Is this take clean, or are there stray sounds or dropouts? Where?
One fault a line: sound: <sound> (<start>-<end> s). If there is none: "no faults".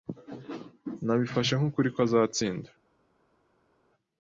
no faults